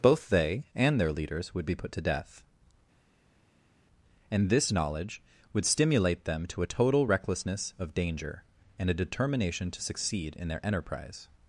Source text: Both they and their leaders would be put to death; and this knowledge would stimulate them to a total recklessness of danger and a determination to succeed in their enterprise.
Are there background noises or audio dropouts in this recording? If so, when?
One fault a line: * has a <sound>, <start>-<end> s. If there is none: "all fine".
all fine